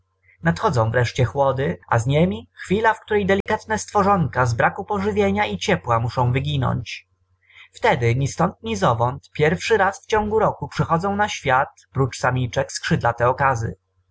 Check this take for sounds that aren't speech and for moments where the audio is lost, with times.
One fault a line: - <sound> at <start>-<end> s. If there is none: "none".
- dropout at 3.4-3.5 s